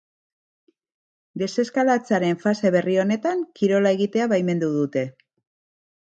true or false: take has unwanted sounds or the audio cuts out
false